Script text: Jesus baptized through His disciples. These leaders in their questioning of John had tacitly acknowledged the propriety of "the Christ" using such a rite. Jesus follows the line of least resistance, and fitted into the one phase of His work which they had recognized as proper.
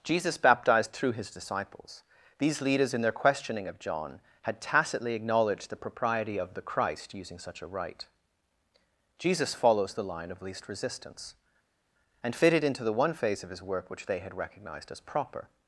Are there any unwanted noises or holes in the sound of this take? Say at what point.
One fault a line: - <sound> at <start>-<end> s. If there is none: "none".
none